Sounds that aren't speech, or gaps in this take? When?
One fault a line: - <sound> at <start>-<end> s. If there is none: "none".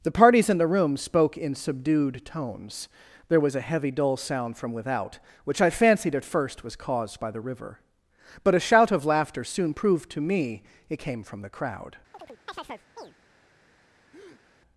- chirp at 12.1-13.1 s
- breath at 14.1-14.4 s